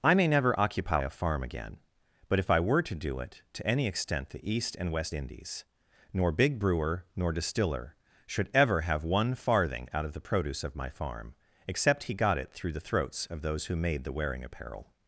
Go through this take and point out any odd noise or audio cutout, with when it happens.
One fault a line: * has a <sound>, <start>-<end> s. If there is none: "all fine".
all fine